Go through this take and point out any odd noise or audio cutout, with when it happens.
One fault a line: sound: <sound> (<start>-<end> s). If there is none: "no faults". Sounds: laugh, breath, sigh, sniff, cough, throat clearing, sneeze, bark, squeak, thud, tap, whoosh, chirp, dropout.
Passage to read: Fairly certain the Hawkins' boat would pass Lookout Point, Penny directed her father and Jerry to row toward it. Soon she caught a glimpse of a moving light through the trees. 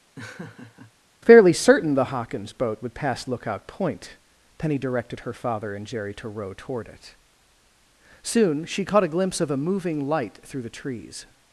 sound: laugh (0.2-0.9 s)